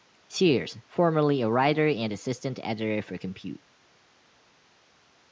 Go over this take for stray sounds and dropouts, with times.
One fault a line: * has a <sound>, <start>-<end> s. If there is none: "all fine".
all fine